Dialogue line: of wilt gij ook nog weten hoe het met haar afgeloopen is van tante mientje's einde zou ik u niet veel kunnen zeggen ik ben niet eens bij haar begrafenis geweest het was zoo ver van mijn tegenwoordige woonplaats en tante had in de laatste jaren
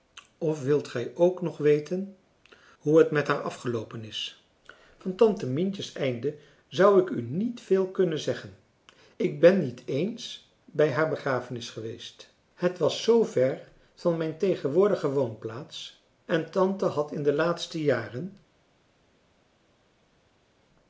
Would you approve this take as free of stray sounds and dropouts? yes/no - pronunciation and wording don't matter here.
yes